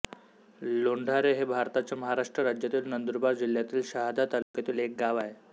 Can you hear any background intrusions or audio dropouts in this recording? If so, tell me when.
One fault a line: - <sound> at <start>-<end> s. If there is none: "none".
- dropout at 4.4-4.5 s